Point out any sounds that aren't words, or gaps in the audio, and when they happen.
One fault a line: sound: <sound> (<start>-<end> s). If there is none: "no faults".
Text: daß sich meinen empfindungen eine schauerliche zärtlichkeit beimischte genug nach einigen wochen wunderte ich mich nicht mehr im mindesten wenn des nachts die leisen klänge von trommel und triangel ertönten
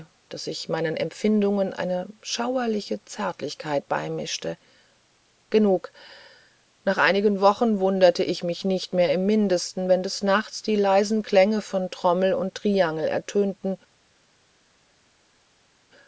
no faults